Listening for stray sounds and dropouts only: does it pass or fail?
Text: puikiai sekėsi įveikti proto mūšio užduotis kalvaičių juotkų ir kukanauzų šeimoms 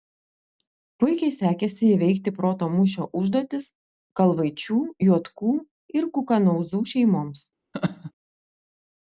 fail